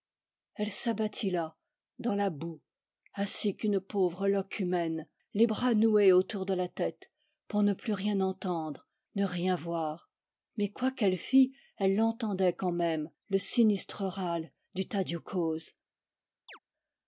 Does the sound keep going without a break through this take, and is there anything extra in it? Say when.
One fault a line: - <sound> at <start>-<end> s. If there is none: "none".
- chirp at 16.5-16.6 s